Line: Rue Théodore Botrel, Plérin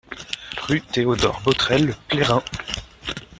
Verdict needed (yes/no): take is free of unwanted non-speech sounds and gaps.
yes